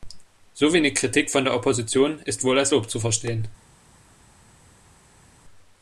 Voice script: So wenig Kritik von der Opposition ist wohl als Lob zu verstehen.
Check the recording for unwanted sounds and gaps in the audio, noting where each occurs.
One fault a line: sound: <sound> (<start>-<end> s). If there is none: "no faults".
no faults